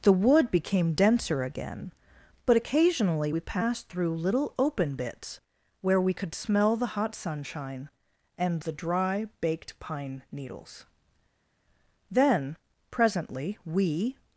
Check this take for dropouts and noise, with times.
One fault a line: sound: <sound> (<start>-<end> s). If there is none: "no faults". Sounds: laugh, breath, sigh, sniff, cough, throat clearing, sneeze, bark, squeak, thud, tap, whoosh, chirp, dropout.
no faults